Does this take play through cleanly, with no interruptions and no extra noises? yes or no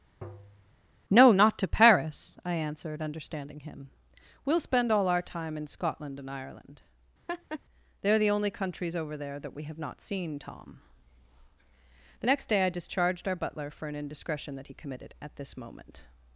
no